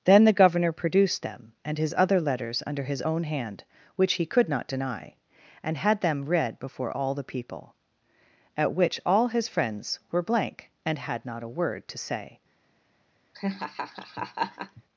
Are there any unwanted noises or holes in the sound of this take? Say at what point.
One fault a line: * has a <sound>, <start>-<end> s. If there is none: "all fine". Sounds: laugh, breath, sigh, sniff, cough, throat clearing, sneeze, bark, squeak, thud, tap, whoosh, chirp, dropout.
* has a laugh, 13.3-14.8 s